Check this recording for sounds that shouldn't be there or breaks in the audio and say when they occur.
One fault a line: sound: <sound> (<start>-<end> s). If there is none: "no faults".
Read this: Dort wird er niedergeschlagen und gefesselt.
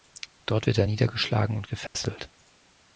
sound: dropout (1.9-1.9 s)